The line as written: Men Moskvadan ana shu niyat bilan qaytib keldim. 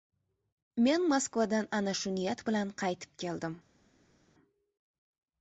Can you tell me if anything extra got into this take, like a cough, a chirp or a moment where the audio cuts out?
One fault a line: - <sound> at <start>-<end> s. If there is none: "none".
none